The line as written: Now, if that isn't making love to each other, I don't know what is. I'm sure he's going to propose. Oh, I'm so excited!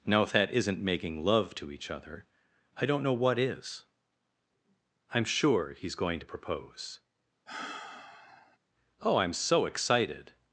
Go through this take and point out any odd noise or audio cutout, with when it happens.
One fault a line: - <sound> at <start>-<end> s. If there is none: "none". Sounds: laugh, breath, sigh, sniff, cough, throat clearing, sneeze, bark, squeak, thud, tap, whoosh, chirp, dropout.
- sigh at 7.5-8.6 s